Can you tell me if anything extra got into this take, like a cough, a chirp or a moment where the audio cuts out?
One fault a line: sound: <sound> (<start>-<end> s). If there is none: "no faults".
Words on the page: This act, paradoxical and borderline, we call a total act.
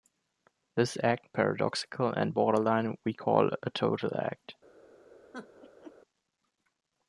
sound: laugh (5.3-5.9 s)